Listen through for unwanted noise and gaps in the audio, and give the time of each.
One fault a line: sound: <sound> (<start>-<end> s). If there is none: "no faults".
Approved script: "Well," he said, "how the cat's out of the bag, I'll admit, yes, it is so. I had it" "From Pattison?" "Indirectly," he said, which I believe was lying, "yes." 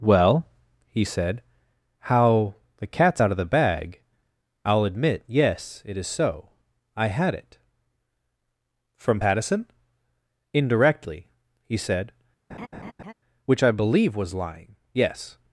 sound: laugh (12.5-13.1 s)